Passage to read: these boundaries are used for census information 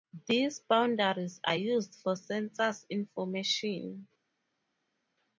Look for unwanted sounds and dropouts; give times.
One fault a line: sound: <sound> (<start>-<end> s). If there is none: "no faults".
no faults